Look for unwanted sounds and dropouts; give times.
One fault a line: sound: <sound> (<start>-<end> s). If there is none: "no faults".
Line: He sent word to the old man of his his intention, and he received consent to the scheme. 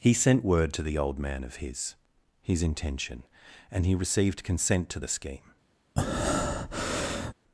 sound: breath (6.0-7.3 s)